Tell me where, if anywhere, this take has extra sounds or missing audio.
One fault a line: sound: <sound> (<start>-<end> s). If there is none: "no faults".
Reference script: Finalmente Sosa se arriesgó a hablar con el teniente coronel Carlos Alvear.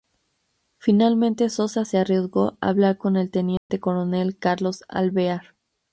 sound: dropout (3.6-3.7 s)